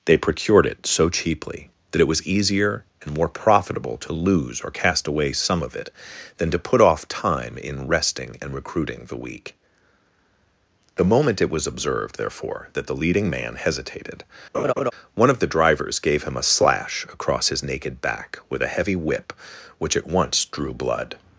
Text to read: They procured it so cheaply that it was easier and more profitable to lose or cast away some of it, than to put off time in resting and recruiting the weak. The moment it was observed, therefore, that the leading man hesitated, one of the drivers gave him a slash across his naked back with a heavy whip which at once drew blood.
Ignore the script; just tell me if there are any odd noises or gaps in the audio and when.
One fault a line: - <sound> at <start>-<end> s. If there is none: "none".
- laugh at 14.5-14.9 s